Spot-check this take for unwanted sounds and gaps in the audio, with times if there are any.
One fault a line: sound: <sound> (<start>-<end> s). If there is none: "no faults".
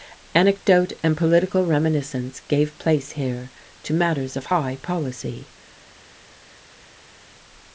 no faults